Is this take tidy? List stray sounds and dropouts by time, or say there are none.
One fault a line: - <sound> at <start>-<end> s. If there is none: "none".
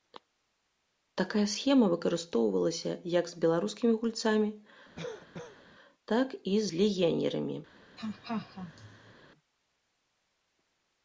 - cough at 5.0-5.6 s
- laugh at 8.0-9.1 s